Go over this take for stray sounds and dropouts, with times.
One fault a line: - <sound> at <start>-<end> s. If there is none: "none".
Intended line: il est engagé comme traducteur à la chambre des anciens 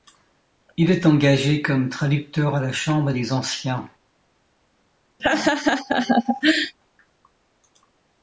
- laugh at 5.2-6.7 s